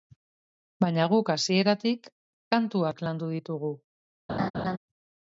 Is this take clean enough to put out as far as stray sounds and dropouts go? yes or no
no